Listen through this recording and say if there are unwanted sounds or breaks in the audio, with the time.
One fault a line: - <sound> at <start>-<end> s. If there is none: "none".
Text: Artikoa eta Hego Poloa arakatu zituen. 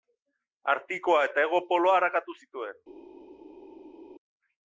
none